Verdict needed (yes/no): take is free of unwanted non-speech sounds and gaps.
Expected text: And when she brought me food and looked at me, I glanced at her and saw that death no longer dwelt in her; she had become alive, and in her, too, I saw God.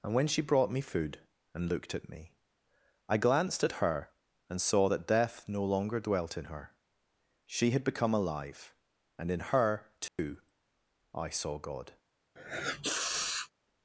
no